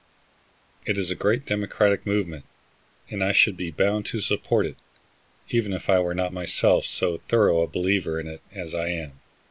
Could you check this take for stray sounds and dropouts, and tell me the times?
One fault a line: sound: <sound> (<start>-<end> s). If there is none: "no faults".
no faults